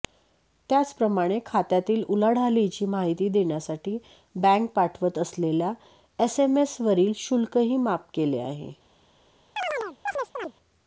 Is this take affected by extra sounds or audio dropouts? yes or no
yes